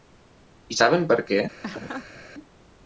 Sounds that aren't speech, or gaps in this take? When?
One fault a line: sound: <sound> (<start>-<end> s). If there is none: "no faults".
sound: laugh (1.6-2.2 s)